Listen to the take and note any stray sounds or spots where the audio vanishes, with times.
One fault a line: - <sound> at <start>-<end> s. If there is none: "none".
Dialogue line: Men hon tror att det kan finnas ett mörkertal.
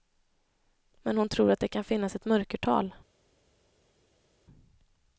none